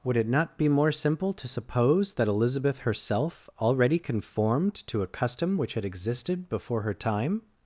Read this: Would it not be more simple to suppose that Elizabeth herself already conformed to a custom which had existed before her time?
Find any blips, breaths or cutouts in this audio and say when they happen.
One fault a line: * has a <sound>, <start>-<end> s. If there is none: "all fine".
all fine